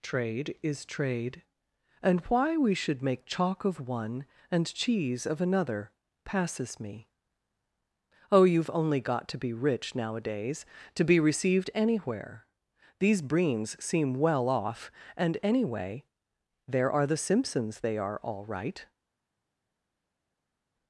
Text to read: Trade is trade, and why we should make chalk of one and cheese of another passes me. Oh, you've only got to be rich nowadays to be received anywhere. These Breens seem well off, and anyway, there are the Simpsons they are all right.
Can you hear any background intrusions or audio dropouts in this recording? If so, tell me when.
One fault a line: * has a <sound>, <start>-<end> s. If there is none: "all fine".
all fine